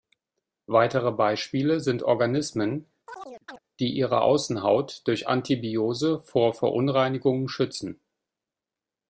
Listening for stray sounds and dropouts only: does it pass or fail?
fail